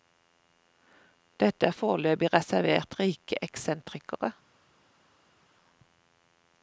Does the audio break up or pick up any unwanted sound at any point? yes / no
no